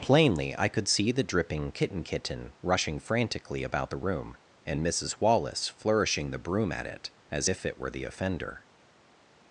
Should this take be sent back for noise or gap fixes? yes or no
no